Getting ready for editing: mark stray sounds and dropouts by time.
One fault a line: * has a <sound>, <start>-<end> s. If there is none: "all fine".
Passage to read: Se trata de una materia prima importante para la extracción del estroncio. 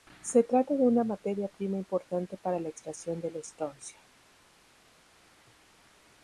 all fine